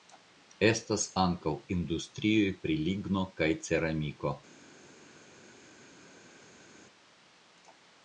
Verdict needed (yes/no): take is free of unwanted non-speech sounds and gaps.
yes